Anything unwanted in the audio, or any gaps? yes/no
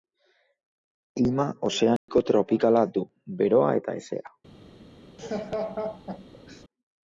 yes